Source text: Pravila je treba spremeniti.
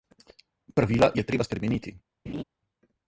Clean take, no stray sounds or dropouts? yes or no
no